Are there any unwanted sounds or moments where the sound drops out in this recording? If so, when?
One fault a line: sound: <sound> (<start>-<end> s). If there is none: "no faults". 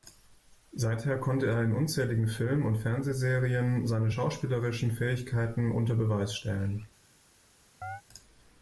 sound: chirp (7.8-8.0 s)